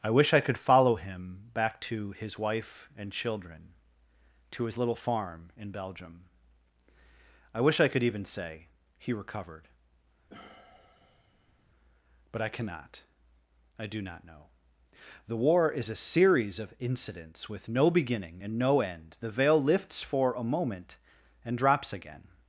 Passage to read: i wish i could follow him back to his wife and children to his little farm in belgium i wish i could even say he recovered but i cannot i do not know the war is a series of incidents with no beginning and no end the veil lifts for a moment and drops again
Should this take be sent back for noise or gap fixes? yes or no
yes